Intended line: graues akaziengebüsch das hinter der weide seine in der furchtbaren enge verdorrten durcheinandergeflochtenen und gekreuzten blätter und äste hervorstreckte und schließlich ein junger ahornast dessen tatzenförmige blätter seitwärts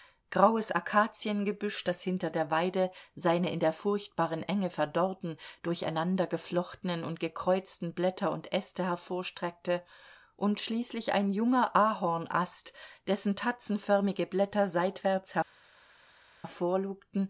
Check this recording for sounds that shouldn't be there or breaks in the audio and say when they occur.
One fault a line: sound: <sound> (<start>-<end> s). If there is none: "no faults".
no faults